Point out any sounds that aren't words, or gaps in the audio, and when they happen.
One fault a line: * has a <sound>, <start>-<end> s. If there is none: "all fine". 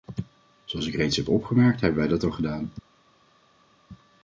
all fine